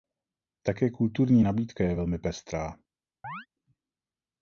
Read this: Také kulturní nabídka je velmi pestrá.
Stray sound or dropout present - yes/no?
yes